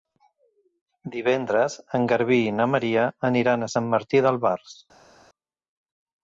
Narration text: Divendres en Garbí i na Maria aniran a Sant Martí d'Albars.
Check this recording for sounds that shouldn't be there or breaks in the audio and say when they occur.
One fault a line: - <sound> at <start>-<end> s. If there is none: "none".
none